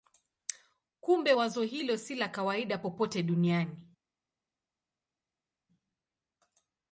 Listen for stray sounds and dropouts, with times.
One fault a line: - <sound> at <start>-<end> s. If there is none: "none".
none